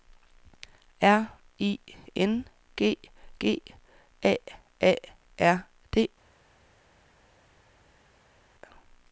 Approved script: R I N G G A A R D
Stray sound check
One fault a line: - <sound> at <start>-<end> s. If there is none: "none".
none